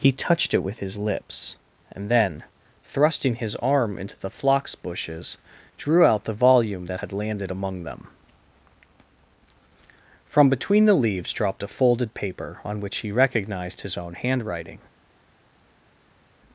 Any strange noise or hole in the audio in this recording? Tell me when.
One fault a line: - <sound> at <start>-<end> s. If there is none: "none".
none